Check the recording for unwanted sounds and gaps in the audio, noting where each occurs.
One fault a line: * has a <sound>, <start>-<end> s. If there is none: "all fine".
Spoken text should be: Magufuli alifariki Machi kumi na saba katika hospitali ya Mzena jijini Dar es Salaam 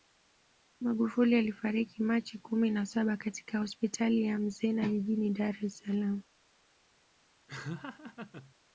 * has a laugh, 7.5-8.5 s